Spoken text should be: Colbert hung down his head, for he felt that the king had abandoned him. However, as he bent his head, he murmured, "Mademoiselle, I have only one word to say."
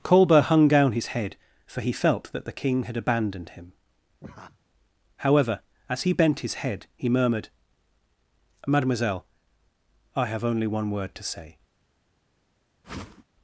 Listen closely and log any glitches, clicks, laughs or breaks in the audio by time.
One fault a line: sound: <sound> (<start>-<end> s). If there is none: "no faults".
sound: laugh (4.2-4.6 s)
sound: whoosh (12.8-13.2 s)